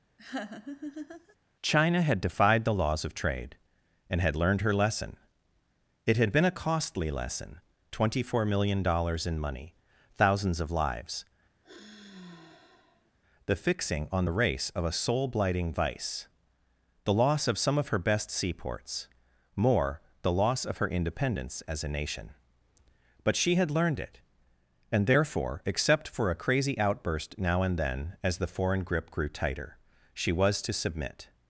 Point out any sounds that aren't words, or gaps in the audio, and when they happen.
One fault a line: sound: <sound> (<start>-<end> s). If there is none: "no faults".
sound: laugh (0.2-1.4 s)
sound: sigh (11.6-13.1 s)